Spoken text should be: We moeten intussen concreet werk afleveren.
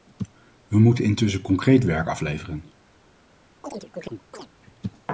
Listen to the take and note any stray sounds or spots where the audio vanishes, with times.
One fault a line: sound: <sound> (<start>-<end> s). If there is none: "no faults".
sound: chirp (3.6-4.5 s)